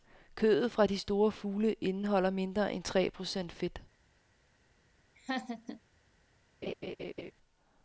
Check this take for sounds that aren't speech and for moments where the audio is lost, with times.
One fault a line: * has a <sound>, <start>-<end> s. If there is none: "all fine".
* has a laugh, 5.2-5.8 s
* has a laugh, 6.6-7.3 s